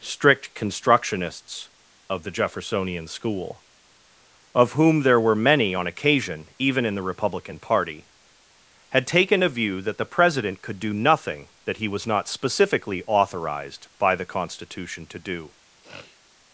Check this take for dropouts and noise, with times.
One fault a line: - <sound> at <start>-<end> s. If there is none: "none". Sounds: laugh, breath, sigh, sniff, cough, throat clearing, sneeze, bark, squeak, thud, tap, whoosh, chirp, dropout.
- sniff at 15.8-16.2 s